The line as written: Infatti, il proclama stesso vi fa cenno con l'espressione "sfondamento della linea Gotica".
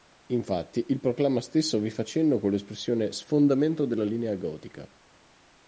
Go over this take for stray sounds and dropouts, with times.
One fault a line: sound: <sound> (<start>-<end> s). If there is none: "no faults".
no faults